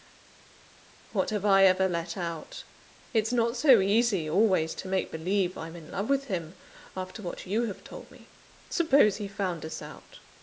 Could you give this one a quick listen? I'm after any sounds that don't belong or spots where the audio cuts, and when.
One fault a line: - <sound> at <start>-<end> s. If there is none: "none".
none